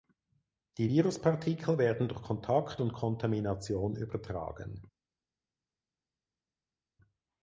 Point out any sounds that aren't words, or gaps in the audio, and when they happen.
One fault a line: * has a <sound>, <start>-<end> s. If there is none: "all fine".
all fine